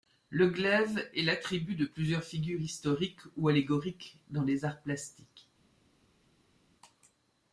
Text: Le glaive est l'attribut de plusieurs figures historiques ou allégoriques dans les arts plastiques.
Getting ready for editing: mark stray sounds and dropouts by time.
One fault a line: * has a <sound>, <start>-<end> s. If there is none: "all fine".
all fine